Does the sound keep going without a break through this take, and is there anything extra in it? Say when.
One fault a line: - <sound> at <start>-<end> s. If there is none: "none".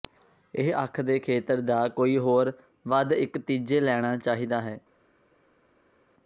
none